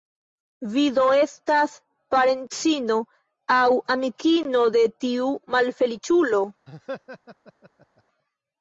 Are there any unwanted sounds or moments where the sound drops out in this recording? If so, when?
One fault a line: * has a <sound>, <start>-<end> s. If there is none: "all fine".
* has a laugh, 6.7-8.0 s